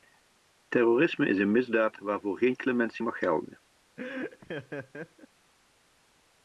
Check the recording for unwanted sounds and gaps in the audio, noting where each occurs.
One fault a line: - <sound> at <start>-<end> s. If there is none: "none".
- laugh at 4.0-5.3 s